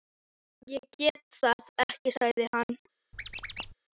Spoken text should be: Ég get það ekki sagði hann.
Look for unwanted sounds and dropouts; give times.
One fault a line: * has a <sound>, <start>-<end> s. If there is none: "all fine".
* has a squeak, 3.1-3.7 s